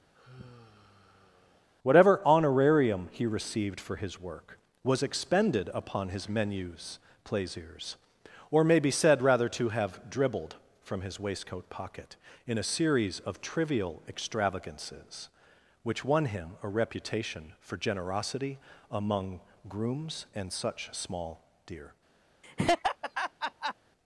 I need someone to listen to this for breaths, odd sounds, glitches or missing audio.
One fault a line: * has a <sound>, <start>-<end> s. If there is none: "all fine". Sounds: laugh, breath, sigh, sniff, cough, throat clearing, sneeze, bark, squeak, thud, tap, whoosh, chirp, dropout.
* has a sigh, 0.1-1.7 s
* has a laugh, 22.4-23.7 s